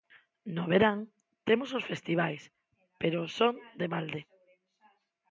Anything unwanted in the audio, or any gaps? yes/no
no